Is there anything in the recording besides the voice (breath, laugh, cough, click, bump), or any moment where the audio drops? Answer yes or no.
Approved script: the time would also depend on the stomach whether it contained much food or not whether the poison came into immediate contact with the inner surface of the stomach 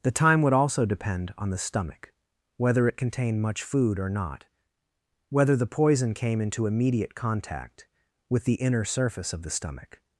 no